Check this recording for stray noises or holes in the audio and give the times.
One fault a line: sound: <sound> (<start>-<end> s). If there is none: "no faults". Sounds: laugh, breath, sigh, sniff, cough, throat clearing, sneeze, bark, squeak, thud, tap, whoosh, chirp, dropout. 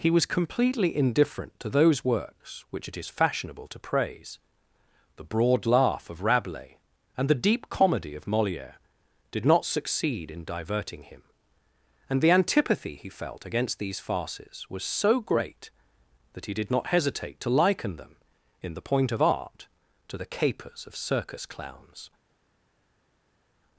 no faults